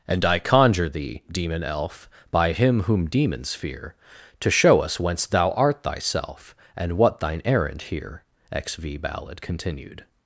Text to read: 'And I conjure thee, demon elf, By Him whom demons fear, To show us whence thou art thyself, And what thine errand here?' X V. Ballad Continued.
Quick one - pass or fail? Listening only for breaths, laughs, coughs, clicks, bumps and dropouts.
pass